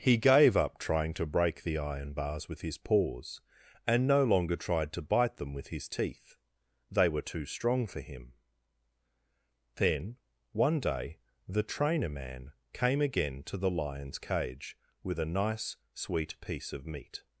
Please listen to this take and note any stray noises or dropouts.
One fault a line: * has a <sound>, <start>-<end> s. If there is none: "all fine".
all fine